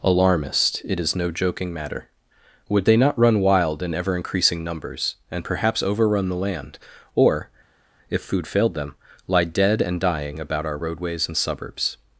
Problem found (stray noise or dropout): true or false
false